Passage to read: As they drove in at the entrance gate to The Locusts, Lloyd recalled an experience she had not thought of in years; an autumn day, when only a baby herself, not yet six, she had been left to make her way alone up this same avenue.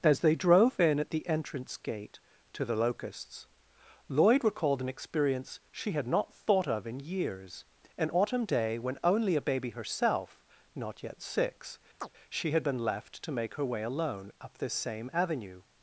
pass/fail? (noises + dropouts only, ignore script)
fail